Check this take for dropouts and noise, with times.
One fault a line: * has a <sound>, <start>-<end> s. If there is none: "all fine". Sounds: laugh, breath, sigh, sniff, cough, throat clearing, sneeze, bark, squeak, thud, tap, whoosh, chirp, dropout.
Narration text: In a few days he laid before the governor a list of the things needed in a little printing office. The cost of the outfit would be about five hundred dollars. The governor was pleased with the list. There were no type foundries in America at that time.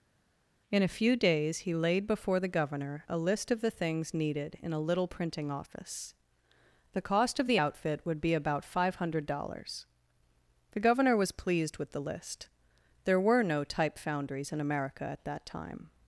all fine